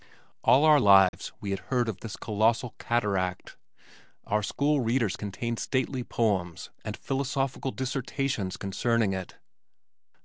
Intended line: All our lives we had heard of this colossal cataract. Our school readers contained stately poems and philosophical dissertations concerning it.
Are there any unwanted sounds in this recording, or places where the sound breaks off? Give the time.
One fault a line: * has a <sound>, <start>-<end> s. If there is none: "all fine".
* has a dropout, 1.1-1.1 s